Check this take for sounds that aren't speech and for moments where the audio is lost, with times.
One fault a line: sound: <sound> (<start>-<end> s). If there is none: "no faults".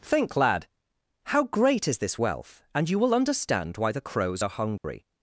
sound: dropout (4.8-4.8 s)